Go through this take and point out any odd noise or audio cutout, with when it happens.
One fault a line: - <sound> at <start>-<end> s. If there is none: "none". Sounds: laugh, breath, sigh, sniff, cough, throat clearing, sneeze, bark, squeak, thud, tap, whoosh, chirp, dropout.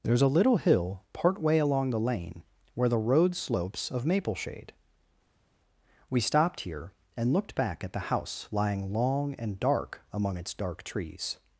none